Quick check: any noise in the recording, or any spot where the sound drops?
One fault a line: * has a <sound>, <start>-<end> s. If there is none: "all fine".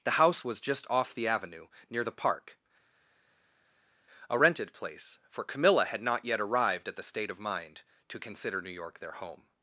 all fine